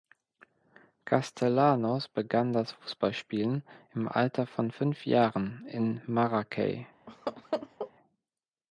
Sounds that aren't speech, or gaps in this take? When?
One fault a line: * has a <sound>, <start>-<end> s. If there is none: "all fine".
* has a laugh, 7.1-7.9 s